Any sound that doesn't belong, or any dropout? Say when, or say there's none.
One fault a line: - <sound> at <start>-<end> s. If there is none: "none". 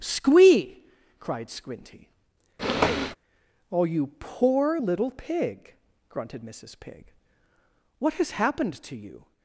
- sniff at 2.6-3.2 s